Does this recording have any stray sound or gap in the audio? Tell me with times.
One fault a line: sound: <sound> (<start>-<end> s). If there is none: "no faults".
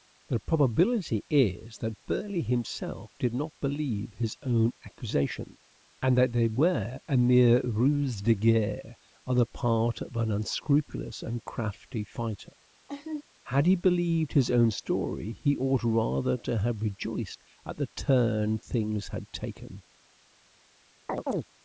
sound: laugh (12.9-13.2 s)
sound: chirp (21.1-21.5 s)